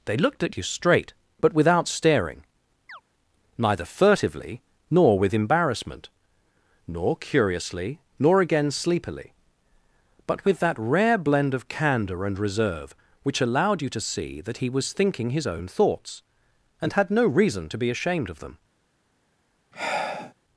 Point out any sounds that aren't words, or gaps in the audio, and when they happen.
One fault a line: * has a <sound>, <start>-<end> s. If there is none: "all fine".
* has a chirp, 2.9-3.0 s
* has a sigh, 19.7-20.3 s